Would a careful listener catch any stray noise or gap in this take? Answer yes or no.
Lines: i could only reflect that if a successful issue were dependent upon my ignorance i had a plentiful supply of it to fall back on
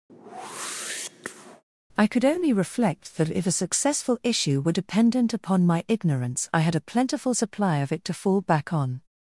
yes